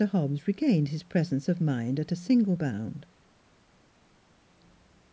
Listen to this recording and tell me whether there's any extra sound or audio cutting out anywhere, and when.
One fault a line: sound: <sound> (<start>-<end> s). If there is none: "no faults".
no faults